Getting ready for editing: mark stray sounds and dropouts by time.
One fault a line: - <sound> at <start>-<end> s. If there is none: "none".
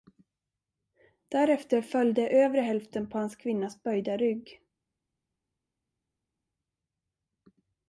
none